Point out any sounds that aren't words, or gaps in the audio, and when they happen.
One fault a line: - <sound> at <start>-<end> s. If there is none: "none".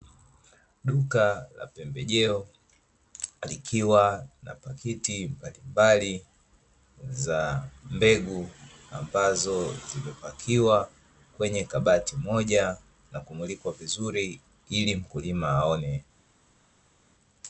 none